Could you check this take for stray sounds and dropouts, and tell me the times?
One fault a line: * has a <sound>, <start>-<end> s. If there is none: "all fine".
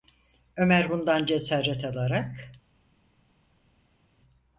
all fine